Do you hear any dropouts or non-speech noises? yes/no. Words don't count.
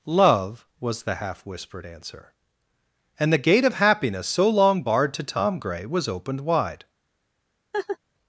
yes